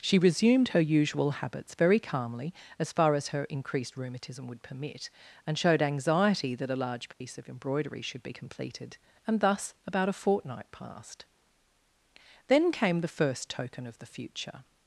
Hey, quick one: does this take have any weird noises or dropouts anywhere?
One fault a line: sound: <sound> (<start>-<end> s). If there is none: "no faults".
sound: dropout (7.1-7.2 s)